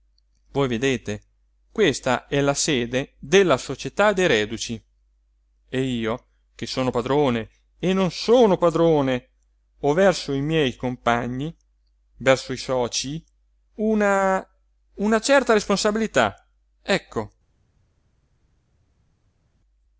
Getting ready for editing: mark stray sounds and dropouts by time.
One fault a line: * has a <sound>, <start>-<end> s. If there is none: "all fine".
all fine